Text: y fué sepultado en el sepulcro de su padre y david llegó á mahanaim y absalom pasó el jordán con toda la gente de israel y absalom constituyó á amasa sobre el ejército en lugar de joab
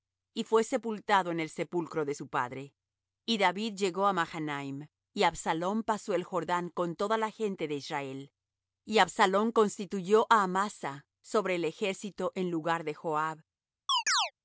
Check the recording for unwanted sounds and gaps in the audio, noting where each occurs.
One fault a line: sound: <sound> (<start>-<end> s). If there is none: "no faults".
sound: chirp (13.9-14.3 s)